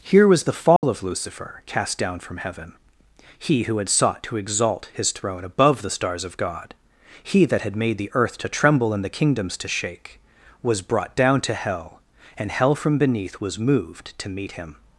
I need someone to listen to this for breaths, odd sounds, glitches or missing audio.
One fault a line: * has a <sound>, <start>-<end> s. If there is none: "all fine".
* has a dropout, 0.8-0.8 s